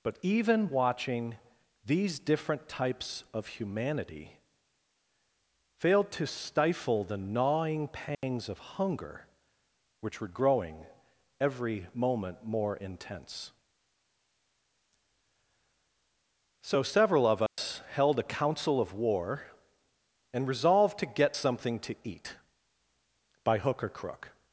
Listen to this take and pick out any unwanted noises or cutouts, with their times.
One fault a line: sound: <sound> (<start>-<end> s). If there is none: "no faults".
sound: dropout (8.1-8.2 s)
sound: dropout (17.5-17.6 s)